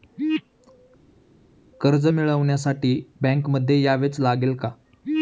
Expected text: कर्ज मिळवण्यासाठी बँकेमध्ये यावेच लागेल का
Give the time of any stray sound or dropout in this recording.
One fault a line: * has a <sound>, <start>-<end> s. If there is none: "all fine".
all fine